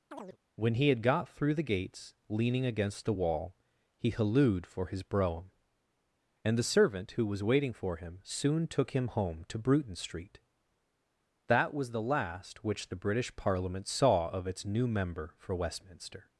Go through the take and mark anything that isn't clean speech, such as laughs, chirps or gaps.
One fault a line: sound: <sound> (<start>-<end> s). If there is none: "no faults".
sound: chirp (0.1-0.4 s)